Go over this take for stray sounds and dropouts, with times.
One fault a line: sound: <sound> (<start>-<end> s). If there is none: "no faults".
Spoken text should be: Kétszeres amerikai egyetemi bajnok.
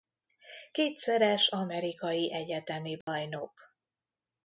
sound: dropout (3.0-3.1 s)